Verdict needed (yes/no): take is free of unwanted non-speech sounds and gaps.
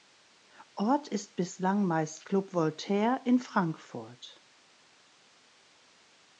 yes